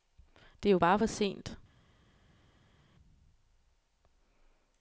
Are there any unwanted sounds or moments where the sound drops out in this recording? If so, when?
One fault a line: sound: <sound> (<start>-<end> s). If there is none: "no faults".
no faults